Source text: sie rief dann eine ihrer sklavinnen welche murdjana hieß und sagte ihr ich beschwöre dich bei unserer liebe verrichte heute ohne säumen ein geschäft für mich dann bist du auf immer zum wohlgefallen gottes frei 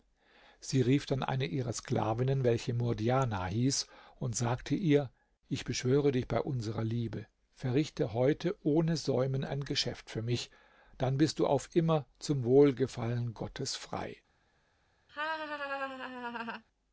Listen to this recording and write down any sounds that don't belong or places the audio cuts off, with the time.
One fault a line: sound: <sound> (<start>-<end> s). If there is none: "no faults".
sound: laugh (15.1-16.6 s)